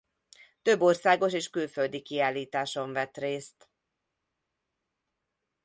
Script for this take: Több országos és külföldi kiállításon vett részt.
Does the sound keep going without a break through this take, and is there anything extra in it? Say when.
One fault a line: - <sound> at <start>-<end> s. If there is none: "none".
none